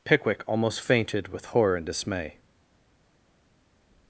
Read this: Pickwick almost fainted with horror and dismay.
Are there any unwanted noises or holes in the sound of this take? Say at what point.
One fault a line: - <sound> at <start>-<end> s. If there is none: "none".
none